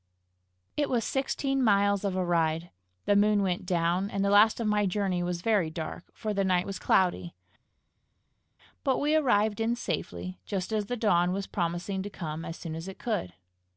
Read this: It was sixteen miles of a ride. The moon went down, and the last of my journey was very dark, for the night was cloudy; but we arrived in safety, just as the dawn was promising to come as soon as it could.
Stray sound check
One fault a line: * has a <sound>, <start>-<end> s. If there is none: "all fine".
all fine